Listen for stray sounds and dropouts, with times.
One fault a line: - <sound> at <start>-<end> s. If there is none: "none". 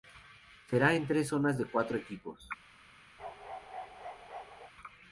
- bark at 3.2-4.7 s